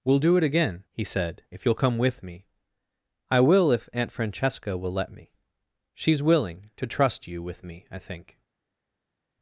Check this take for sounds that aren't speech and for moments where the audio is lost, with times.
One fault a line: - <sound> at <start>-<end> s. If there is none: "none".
none